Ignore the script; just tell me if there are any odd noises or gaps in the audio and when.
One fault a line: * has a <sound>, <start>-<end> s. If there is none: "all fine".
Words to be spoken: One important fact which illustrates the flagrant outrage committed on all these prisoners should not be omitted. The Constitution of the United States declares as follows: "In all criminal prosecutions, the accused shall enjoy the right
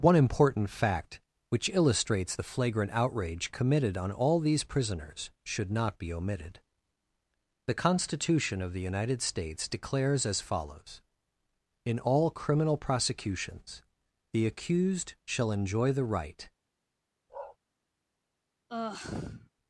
* has a bark, 17.3-17.6 s
* has a sigh, 18.7-19.5 s